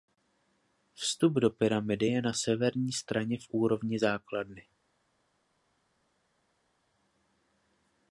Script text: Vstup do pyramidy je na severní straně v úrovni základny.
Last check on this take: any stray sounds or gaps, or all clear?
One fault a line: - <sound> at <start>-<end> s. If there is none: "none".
none